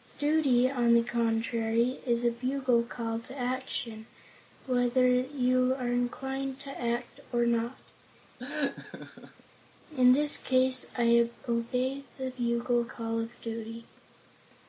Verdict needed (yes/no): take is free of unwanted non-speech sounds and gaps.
no